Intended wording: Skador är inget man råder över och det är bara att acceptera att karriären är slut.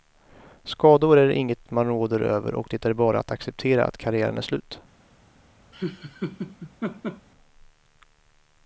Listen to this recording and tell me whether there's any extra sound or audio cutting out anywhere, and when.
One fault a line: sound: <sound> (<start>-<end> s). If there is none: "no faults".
sound: laugh (5.7-7.3 s)